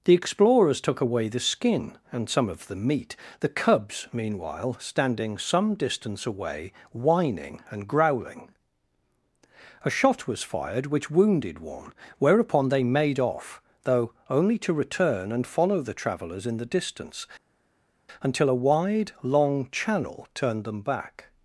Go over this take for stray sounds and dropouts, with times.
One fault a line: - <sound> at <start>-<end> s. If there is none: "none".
none